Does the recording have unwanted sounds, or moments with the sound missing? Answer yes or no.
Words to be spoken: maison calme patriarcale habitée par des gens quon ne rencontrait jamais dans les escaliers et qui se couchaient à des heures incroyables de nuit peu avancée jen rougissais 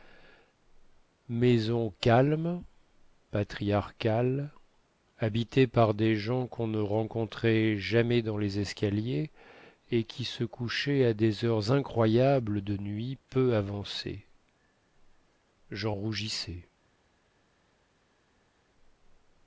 no